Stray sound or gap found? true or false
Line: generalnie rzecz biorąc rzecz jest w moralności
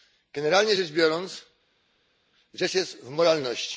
false